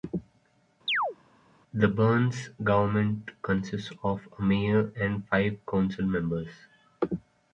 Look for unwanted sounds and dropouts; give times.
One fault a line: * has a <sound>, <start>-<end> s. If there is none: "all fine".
* has a chirp, 0.9-1.2 s